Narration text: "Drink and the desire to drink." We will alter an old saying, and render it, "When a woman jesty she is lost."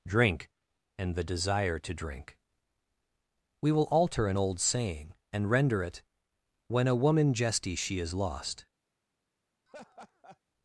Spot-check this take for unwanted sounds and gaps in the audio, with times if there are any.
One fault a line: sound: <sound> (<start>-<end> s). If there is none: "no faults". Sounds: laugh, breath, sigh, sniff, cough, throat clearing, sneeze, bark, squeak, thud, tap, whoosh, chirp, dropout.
sound: laugh (9.7-10.4 s)